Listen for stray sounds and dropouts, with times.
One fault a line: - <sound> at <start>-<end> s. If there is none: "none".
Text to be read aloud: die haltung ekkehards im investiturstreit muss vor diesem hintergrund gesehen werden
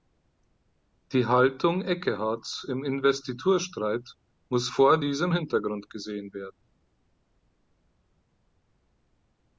none